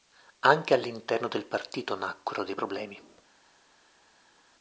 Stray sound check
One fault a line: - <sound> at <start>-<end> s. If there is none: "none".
none